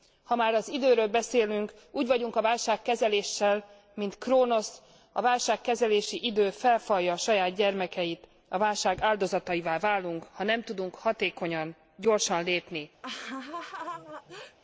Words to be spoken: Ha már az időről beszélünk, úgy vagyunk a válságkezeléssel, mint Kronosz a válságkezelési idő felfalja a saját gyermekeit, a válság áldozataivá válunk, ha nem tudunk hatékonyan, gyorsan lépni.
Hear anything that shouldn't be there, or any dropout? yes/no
yes